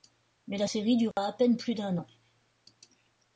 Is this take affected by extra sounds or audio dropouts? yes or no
yes